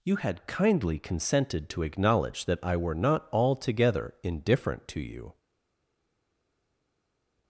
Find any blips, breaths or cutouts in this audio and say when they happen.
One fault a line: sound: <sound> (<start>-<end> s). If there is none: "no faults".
no faults